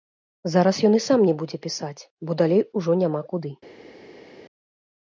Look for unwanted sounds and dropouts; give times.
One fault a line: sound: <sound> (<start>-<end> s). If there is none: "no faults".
no faults